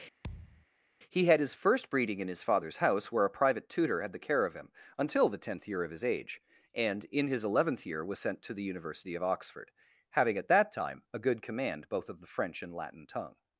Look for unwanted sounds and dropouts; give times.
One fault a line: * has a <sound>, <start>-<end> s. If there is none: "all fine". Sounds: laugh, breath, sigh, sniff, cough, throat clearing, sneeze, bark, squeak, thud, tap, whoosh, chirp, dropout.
* has a thud, 0.2-0.7 s